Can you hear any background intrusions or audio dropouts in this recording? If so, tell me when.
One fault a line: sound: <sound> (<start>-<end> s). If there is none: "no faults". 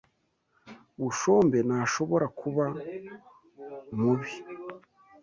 no faults